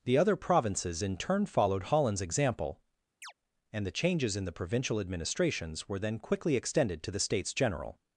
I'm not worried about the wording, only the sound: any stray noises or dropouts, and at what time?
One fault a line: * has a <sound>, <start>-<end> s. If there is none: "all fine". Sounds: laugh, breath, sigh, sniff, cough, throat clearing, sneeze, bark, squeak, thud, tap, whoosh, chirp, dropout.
* has a chirp, 3.2-3.3 s